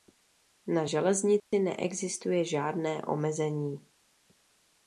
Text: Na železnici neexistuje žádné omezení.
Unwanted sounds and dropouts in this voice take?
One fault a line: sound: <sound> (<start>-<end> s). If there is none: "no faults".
sound: dropout (1.4-1.5 s)